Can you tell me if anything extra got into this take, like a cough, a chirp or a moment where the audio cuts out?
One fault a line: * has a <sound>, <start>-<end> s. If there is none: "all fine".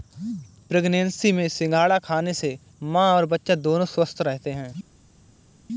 all fine